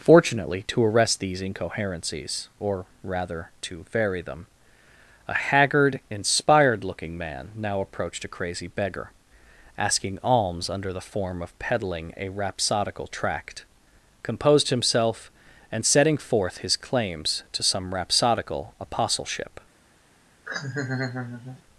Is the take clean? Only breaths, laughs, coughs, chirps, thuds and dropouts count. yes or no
no